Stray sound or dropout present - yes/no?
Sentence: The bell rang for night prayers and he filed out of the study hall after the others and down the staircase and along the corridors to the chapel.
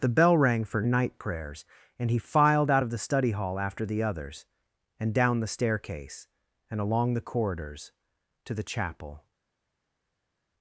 no